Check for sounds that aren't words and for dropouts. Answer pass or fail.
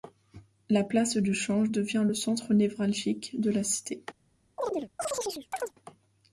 fail